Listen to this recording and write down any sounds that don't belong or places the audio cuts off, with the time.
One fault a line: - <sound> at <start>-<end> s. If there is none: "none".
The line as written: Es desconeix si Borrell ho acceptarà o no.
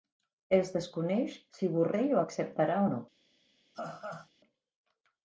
- laugh at 3.7-4.3 s